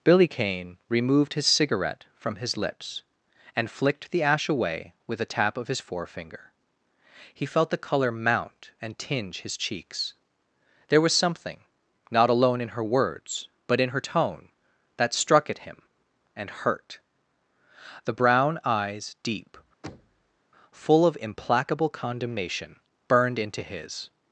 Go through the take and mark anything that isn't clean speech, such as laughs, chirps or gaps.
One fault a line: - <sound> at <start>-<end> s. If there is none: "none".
- thud at 19.8-20.4 s